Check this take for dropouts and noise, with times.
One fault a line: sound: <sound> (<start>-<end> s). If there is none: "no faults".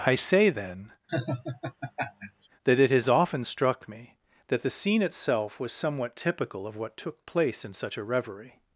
sound: laugh (1.1-2.5 s)